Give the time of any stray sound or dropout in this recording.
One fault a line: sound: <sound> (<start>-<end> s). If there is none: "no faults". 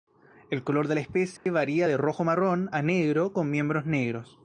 sound: dropout (1.4-1.5 s)